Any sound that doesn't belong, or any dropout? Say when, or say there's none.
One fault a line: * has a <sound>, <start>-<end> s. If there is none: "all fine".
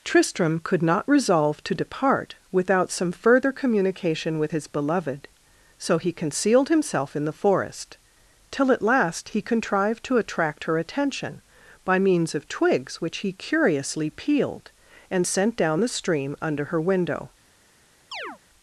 * has a chirp, 18.1-18.4 s